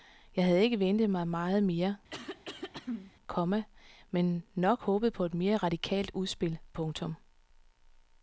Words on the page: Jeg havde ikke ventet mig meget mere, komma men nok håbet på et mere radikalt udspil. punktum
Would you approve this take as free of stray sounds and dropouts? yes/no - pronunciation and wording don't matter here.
no